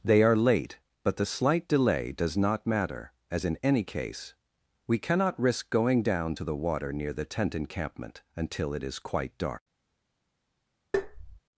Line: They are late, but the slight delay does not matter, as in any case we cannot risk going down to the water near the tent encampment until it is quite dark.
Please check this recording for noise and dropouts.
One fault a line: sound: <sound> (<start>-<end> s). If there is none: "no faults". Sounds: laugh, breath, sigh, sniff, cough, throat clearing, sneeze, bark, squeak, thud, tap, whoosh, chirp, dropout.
sound: tap (10.9-11.4 s)